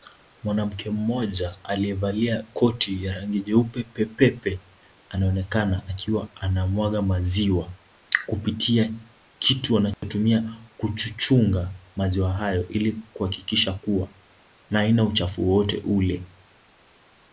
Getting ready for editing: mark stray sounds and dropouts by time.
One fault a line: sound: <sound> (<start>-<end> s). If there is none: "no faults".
sound: dropout (9.9-10.0 s)